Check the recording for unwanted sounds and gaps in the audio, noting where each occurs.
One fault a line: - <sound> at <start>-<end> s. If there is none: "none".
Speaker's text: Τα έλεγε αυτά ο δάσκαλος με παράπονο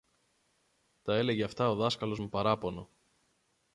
none